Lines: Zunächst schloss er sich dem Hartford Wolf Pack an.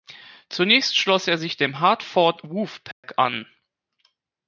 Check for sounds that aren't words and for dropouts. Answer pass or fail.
fail